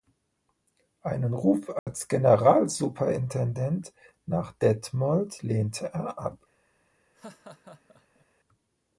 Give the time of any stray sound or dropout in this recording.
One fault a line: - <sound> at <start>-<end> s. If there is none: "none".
- dropout at 1.8-1.9 s
- laugh at 7.1-8.3 s